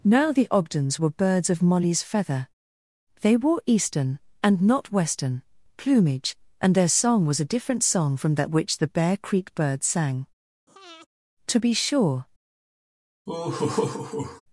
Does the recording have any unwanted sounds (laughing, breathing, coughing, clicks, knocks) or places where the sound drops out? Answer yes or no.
yes